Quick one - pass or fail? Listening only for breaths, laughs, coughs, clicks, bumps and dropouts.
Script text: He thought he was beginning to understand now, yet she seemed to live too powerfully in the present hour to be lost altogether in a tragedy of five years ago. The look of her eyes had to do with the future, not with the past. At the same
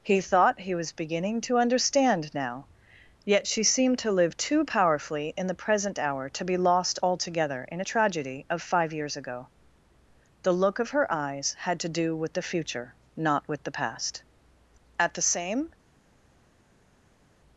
pass